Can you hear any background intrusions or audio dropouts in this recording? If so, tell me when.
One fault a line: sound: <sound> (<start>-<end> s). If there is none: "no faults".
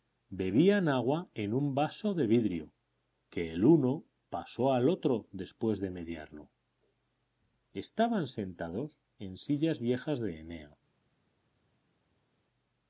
no faults